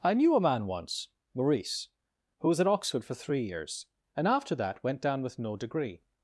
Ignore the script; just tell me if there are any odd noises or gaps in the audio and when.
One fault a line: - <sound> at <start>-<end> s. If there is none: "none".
none